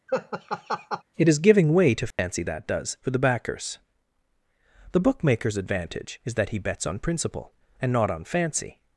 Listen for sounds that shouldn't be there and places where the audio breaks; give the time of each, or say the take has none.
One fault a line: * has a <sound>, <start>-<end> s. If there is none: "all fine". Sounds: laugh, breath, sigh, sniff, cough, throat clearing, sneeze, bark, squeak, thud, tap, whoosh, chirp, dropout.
* has a laugh, 0.1-1.0 s
* has a dropout, 2.1-2.2 s